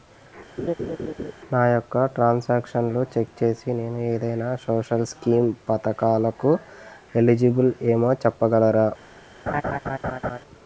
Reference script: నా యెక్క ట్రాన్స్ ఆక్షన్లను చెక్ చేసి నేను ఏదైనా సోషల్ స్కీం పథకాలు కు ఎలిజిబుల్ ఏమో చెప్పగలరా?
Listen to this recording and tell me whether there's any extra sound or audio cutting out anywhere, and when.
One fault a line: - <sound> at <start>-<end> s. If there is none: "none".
- laugh at 0.6-1.3 s
- laugh at 9.5-10.4 s